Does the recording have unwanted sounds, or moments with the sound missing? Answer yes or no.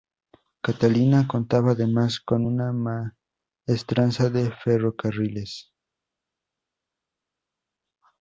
no